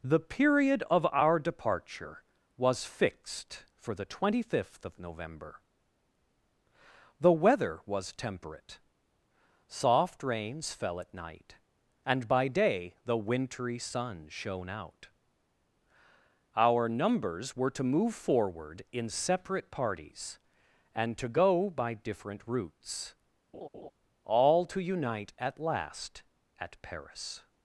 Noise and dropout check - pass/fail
fail